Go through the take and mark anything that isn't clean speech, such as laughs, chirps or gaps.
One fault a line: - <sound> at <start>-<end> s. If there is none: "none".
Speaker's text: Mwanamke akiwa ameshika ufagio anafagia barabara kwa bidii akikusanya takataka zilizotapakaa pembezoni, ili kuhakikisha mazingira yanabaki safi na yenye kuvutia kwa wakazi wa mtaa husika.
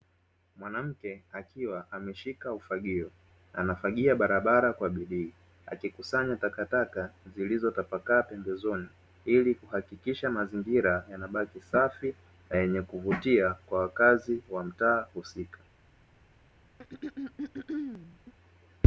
- throat clearing at 16.8-18.3 s